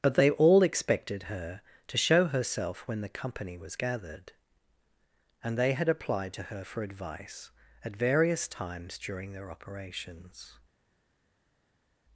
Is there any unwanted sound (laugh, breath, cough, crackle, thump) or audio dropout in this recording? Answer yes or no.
no